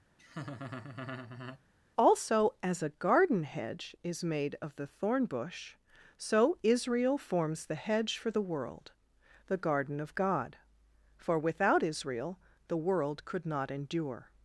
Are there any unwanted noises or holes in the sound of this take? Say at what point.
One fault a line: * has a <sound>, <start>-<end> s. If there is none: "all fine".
* has a laugh, 0.2-1.6 s